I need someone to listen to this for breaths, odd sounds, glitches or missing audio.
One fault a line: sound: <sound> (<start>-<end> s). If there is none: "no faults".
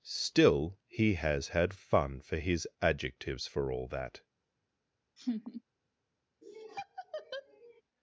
sound: laugh (5.2-5.6 s)
sound: laugh (6.4-7.8 s)